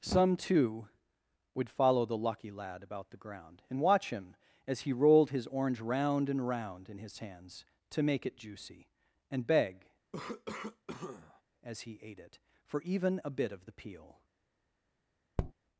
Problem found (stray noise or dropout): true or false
true